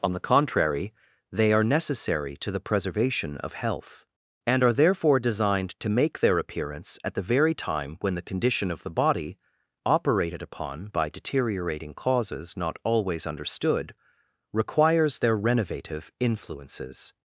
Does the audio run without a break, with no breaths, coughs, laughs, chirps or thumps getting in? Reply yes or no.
yes